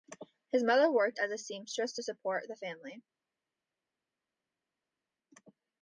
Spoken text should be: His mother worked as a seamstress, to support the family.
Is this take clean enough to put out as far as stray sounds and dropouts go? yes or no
yes